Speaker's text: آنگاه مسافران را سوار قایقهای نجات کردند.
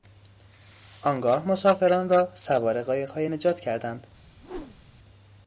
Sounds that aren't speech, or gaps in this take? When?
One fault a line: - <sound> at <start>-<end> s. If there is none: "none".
- whoosh at 4.4-5.0 s